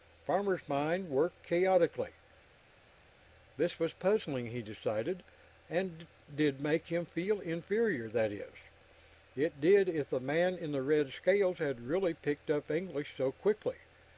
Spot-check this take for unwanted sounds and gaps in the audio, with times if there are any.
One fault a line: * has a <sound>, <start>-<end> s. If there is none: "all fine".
all fine